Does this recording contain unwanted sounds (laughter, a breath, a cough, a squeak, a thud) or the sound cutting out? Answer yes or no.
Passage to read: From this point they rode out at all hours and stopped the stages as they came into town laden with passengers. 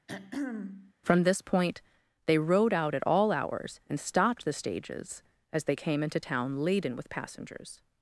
yes